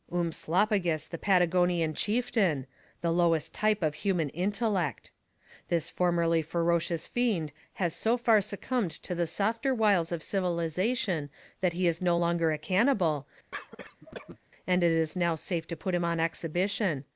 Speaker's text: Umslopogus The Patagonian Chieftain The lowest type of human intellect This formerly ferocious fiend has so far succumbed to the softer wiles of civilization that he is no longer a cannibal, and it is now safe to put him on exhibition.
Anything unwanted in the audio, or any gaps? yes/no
yes